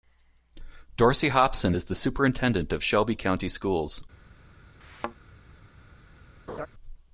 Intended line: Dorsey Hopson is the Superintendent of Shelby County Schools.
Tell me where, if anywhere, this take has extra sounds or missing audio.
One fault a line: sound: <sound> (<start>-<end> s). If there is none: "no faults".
sound: thud (4.8-5.2 s)
sound: laugh (6.5-6.7 s)